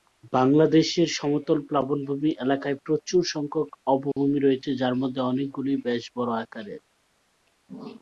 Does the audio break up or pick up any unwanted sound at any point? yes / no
yes